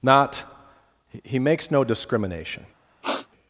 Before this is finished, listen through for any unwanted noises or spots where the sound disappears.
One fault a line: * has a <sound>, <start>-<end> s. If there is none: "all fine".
* has a sniff, 3.0-3.3 s